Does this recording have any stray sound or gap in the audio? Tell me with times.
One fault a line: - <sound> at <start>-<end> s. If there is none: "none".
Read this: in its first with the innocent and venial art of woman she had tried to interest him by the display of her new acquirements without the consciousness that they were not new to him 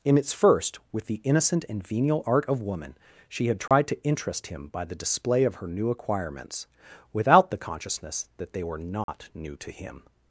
- dropout at 3.7-3.7 s
- dropout at 9.0-9.1 s